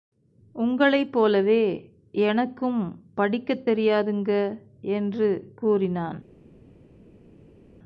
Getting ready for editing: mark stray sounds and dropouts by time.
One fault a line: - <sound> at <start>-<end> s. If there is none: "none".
none